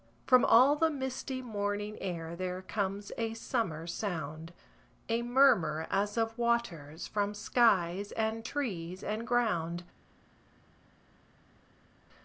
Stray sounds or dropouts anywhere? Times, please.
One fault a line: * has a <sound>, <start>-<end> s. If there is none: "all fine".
all fine